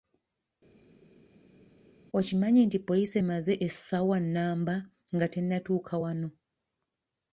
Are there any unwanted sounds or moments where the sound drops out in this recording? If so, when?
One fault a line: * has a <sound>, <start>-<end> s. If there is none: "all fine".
all fine